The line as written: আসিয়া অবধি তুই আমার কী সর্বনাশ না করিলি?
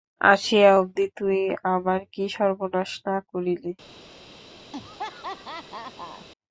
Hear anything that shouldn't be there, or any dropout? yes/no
yes